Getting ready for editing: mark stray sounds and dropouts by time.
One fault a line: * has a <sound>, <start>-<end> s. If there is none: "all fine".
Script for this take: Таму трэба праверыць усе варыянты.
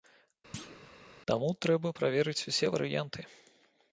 * has a thud, 0.5-0.9 s